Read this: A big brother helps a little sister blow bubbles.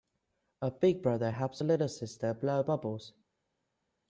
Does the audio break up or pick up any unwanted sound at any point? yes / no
no